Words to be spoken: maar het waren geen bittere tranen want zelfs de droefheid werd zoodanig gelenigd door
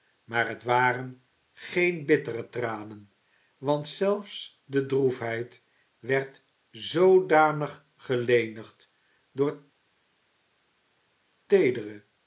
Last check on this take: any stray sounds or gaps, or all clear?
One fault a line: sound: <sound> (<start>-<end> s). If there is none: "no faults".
no faults